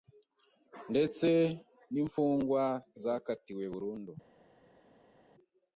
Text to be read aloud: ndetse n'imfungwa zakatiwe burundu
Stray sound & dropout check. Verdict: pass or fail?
pass